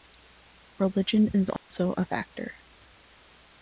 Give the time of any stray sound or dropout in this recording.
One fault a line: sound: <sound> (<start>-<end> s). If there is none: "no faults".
sound: dropout (1.6-1.7 s)